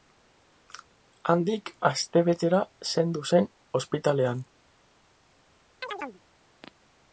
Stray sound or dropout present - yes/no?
yes